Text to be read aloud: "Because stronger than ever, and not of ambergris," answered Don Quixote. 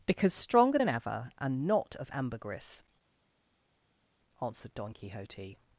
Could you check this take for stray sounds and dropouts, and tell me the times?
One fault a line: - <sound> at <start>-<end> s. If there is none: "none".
none